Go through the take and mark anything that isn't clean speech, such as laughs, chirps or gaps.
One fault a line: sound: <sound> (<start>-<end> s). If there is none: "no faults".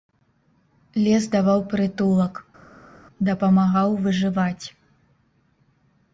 no faults